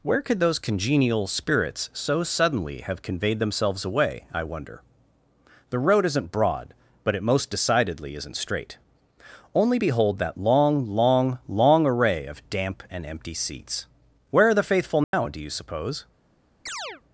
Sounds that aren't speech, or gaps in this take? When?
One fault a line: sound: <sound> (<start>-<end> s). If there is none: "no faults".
sound: dropout (15.0-15.1 s)
sound: chirp (16.7-17.0 s)